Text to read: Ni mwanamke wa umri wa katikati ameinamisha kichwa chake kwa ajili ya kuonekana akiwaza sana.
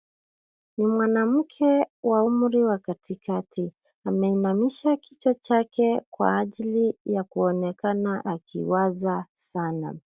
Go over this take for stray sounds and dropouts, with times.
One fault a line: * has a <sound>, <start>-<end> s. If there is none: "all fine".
all fine